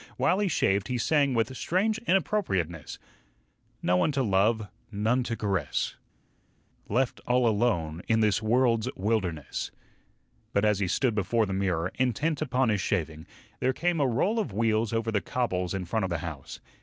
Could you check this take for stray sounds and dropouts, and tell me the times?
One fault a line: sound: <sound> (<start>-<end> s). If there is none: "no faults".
no faults